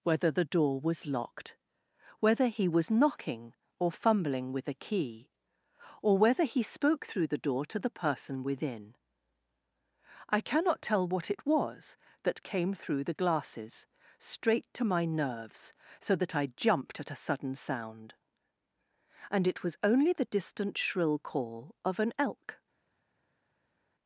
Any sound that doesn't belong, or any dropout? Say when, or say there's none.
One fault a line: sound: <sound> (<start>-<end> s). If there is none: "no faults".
no faults